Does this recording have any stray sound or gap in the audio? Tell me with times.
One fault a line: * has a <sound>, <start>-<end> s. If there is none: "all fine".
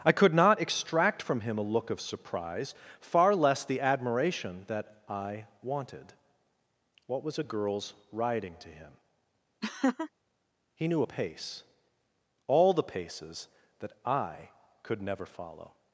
* has a laugh, 9.6-10.1 s